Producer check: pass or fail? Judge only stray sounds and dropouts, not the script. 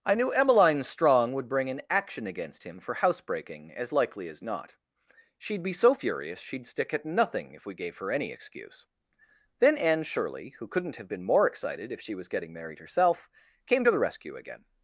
pass